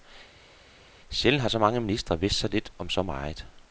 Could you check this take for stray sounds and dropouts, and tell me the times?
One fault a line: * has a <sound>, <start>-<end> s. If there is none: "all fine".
all fine